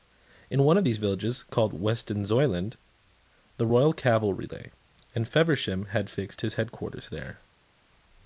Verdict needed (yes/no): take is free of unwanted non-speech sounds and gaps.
yes